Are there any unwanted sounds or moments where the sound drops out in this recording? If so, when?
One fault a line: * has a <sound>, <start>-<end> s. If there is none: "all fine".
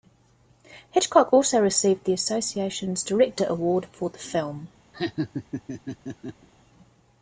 * has a laugh, 4.9-6.5 s